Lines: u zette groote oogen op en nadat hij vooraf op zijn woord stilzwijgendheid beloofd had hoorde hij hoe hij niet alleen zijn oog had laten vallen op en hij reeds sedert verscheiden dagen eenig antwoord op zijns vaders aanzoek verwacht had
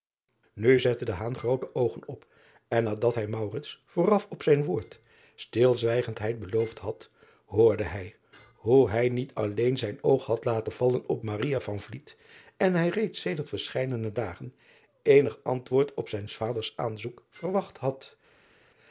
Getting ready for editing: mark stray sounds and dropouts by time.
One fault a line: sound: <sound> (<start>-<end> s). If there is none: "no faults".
no faults